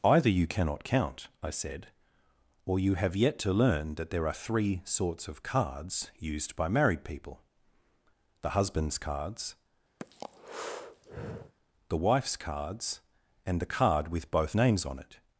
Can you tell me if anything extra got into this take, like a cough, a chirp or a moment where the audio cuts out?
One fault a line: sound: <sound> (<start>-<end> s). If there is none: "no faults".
sound: breath (10.0-11.5 s)